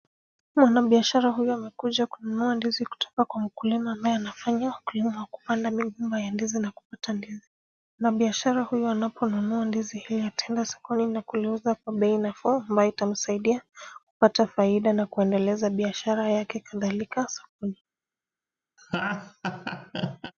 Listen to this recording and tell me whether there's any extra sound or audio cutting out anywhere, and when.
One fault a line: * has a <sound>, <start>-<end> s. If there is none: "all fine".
* has a laugh, 18.8-20.3 s